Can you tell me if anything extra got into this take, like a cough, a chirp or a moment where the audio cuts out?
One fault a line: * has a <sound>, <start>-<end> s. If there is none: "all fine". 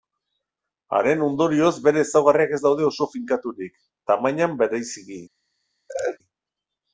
* has a laugh, 5.9-6.2 s